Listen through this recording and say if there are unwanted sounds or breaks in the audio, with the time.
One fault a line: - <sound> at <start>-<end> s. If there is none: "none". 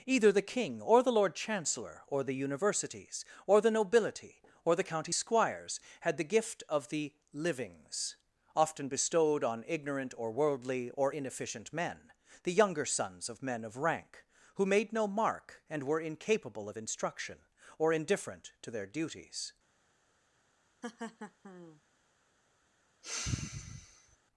- laugh at 20.8-21.8 s
- sigh at 23.0-24.2 s